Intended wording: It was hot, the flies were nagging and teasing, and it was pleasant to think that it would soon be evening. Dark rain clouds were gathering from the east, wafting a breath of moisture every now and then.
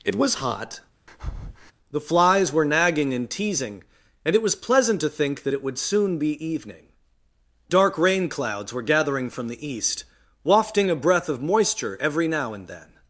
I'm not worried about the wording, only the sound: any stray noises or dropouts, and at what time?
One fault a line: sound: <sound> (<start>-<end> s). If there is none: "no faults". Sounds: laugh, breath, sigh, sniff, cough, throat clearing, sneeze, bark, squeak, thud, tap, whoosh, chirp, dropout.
sound: breath (1.1-1.7 s)